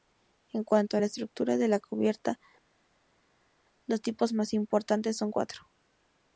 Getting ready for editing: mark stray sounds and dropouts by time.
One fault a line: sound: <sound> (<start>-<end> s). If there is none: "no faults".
no faults